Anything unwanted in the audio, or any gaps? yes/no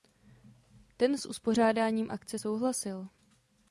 no